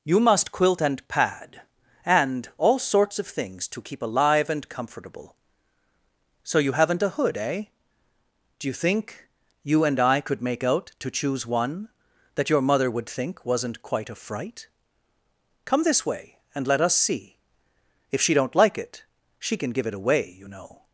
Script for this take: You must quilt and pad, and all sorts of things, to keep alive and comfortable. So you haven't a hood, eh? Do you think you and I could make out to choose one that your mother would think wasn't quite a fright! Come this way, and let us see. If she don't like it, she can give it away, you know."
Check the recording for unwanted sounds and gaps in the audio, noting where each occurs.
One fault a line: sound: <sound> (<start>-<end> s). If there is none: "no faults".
no faults